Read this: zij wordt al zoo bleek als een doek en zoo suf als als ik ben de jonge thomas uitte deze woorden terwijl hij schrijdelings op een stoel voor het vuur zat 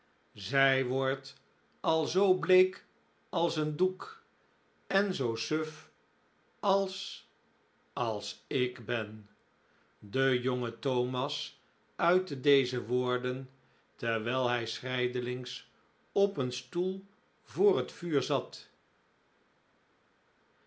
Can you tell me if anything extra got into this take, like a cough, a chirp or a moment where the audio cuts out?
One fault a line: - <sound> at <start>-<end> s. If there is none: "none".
none